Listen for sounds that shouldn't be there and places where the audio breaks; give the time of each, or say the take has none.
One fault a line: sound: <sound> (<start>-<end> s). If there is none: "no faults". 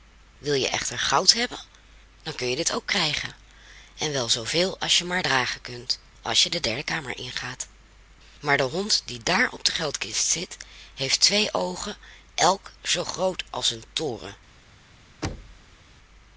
sound: thud (15.2-15.8 s)